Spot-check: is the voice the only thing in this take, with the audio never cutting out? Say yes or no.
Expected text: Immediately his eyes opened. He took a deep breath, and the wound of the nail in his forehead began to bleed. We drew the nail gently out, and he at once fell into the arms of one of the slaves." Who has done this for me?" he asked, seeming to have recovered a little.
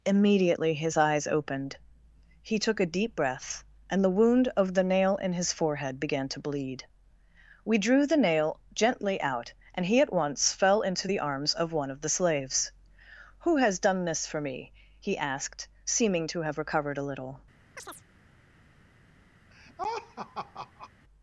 no